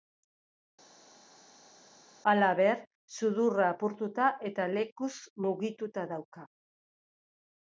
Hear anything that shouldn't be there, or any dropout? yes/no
no